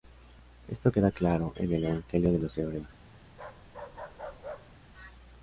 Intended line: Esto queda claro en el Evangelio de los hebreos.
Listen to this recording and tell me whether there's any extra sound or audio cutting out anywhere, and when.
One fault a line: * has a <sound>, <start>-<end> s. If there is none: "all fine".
* has a bark, 3.3-4.8 s